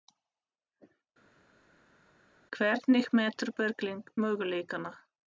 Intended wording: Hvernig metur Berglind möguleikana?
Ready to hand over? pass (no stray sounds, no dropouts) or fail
pass